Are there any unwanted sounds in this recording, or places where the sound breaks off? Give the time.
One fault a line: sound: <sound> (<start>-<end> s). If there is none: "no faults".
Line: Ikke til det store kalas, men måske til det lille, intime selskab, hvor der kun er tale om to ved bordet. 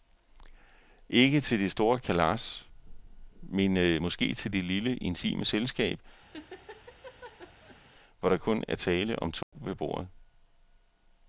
sound: laugh (6.3-7.8 s)
sound: dropout (9.4-9.5 s)